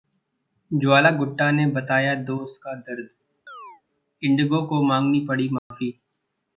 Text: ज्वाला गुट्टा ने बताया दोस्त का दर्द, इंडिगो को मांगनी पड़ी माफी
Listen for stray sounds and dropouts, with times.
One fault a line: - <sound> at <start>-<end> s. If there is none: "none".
- chirp at 3.5-3.8 s
- dropout at 5.6-5.7 s